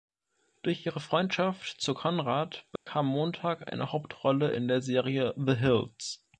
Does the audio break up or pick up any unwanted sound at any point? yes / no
yes